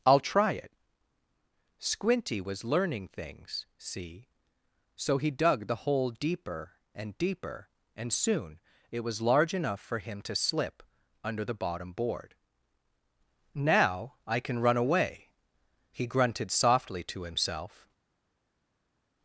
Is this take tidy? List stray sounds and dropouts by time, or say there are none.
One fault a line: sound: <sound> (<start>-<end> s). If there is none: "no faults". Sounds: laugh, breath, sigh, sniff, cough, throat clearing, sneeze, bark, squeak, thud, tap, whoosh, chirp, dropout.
no faults